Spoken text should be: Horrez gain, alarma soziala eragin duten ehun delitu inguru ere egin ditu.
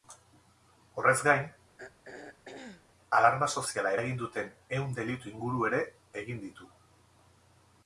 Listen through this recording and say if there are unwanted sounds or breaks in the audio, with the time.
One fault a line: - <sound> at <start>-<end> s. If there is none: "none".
- throat clearing at 1.8-2.9 s